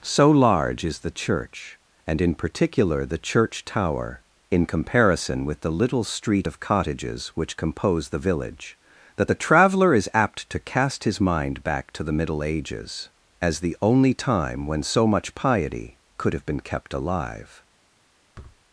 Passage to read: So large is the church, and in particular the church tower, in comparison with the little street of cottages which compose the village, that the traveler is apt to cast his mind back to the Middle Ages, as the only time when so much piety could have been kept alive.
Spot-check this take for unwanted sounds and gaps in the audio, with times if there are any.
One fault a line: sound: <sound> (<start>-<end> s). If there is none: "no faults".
sound: thud (18.3-18.6 s)